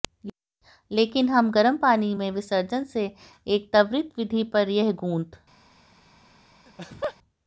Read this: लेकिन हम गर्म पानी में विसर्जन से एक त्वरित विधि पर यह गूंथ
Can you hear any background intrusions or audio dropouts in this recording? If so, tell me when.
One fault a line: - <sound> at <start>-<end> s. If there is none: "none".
- laugh at 6.7-7.2 s